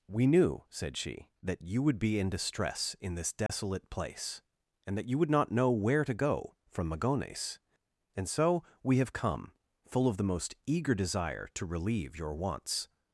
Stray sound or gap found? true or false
true